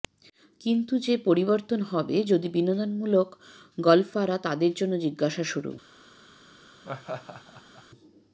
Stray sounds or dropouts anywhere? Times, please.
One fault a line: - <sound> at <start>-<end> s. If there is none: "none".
- laugh at 6.8-7.8 s